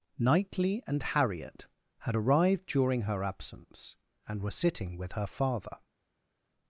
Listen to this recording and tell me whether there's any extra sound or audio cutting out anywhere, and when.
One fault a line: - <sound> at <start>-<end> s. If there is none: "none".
none